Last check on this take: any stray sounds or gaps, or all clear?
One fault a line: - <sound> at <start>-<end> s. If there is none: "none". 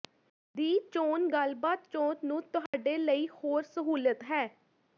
- dropout at 2.7-2.7 s